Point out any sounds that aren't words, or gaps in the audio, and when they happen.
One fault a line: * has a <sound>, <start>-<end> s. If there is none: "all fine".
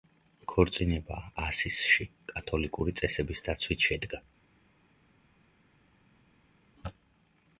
all fine